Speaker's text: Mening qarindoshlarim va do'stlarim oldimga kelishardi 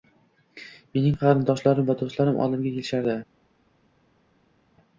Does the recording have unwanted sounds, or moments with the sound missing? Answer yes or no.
no